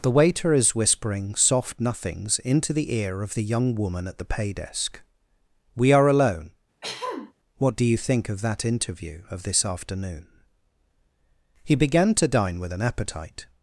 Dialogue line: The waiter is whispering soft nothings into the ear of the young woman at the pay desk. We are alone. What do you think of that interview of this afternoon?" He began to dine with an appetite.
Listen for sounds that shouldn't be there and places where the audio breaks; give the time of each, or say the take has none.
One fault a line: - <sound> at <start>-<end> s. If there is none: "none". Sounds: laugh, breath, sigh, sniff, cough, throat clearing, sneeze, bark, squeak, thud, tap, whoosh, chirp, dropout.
- throat clearing at 6.8-7.3 s